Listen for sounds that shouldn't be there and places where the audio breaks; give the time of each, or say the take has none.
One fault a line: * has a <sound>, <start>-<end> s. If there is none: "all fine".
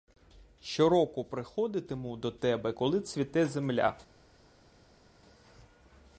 all fine